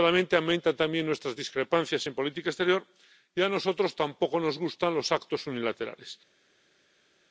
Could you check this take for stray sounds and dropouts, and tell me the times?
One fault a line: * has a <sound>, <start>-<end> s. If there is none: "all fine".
all fine